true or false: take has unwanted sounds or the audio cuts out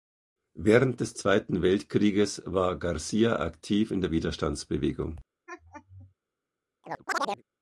true